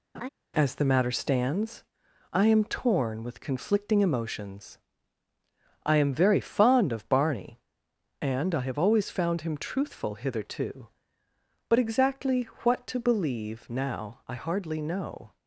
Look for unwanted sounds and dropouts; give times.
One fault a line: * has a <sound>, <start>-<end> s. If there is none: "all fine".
* has a laugh, 0.1-0.3 s